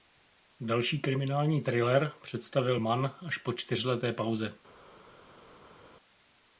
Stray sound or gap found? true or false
false